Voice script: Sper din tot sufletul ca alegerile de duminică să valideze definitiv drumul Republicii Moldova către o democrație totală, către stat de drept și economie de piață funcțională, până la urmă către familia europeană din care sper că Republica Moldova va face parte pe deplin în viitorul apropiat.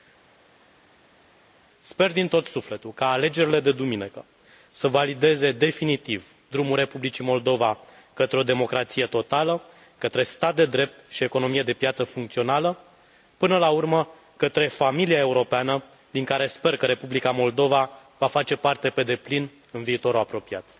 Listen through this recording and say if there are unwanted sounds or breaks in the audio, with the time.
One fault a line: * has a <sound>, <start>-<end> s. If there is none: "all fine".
all fine